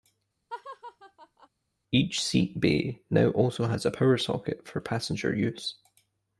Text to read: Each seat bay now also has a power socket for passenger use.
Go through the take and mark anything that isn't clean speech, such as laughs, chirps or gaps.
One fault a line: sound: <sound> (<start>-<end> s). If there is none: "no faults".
sound: laugh (0.5-1.5 s)